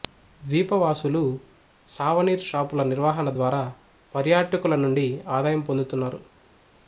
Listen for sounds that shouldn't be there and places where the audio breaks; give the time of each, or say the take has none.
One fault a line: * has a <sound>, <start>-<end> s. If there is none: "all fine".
all fine